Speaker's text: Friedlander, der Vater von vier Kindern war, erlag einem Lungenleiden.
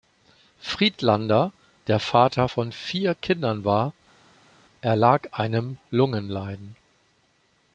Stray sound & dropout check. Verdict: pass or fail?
pass